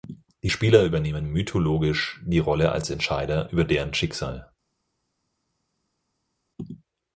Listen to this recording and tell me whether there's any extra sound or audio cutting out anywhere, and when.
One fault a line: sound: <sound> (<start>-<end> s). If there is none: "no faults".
no faults